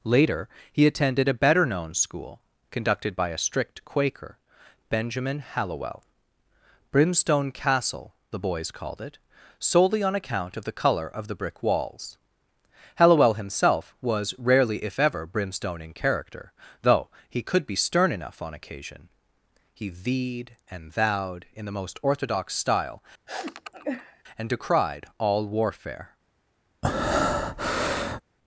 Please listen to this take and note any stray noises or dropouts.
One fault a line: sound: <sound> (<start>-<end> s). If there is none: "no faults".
sound: sniff (23.3-24.2 s)
sound: breath (26.8-28.2 s)